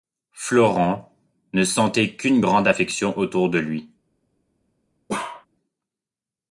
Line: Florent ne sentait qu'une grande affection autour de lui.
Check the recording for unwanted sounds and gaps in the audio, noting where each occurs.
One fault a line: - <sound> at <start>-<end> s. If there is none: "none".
- bark at 5.1-5.5 s